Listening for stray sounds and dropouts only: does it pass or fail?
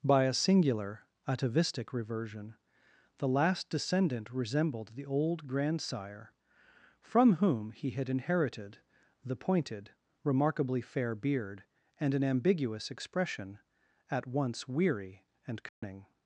fail